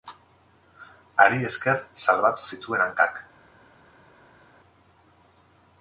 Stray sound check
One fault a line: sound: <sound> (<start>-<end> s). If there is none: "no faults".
no faults